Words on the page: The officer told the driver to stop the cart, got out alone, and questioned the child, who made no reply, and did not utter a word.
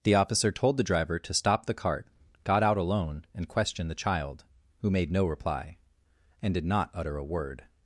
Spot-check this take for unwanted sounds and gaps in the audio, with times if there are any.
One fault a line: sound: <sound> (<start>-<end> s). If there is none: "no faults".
no faults